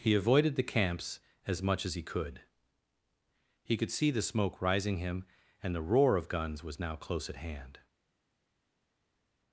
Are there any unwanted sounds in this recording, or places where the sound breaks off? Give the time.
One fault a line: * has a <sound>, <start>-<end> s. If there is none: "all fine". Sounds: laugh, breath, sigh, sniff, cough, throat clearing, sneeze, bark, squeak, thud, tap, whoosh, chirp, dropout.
all fine